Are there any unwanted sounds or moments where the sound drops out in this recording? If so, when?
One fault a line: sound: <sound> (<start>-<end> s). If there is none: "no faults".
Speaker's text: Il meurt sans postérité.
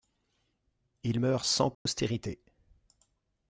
sound: dropout (1.7-1.9 s)